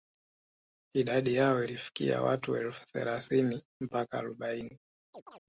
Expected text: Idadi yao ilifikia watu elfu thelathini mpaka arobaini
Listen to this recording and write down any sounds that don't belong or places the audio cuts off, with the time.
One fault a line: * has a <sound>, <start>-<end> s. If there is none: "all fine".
* has a chirp, 5.1-5.4 s